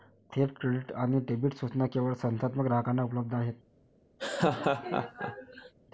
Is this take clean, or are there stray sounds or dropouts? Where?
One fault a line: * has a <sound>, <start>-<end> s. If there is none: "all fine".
* has a laugh, 4.2-5.7 s